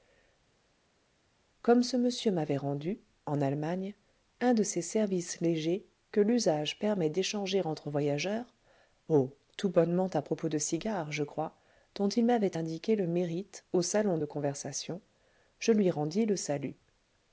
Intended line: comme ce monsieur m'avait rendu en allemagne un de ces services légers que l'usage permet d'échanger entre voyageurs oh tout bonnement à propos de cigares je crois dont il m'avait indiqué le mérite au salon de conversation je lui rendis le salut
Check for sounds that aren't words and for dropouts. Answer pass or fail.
pass